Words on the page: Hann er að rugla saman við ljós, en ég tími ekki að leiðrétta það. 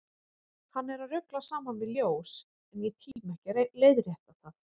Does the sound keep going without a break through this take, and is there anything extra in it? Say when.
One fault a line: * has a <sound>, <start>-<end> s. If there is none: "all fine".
* has a dropout, 3.1-3.2 s